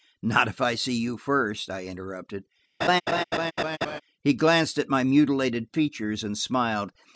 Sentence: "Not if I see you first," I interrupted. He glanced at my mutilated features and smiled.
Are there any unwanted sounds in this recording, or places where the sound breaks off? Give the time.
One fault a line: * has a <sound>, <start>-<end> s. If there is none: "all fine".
* has a laugh, 2.8-4.0 s